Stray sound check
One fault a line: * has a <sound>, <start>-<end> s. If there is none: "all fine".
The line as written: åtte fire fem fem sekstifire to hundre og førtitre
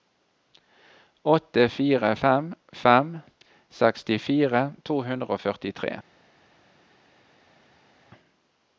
all fine